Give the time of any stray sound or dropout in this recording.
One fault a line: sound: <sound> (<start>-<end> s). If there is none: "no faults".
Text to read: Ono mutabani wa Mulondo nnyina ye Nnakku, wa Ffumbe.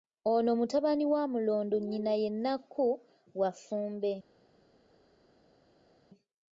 no faults